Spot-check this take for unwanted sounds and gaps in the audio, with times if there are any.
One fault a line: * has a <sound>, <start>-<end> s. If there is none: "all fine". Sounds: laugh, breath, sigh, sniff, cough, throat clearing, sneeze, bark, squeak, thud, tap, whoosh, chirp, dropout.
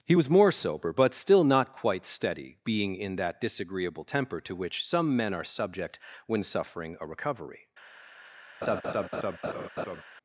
* has a laugh, 8.6-10.0 s